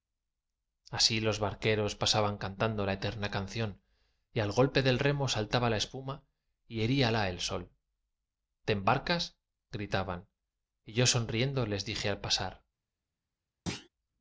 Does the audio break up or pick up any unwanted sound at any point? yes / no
yes